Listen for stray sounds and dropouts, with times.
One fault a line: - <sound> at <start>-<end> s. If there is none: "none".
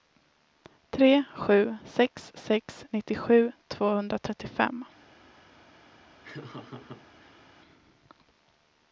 - laugh at 6.2-7.4 s